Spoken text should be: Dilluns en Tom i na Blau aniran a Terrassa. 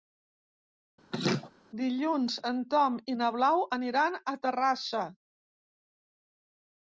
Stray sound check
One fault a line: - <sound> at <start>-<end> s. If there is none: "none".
- laugh at 1.1-1.5 s